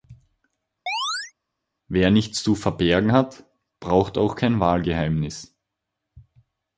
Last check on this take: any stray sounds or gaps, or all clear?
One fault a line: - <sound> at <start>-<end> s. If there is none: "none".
- chirp at 0.9-1.3 s